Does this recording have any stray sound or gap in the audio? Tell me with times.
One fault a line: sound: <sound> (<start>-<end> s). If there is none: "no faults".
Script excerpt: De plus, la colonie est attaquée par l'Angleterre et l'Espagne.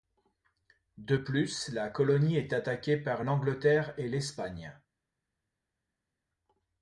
no faults